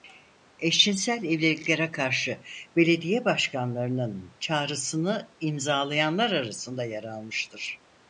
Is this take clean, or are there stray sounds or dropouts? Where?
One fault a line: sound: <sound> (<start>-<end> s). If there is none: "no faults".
no faults